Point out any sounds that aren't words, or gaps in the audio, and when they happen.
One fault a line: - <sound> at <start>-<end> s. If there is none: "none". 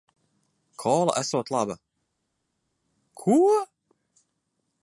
none